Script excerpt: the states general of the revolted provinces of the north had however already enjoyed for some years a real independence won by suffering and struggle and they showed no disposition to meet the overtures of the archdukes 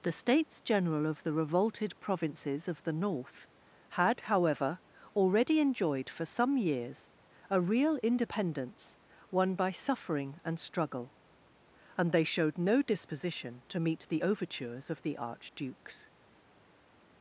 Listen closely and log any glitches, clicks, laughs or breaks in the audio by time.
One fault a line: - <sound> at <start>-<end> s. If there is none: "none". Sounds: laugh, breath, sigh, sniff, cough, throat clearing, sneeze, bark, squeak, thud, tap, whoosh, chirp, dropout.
none